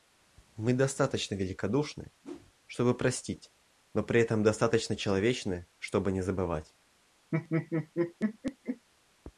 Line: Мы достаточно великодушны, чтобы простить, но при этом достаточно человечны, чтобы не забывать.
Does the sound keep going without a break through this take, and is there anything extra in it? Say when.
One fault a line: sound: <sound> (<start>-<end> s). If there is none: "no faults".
sound: whoosh (2.2-2.5 s)
sound: laugh (7.3-8.9 s)